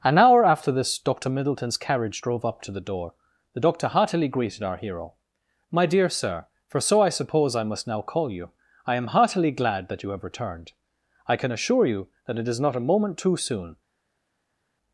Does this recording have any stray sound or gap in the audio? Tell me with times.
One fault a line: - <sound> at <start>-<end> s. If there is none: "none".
none